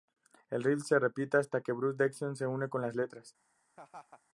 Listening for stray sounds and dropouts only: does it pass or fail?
fail